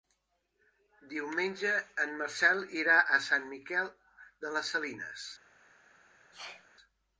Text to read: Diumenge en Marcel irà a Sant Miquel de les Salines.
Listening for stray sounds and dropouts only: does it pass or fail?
fail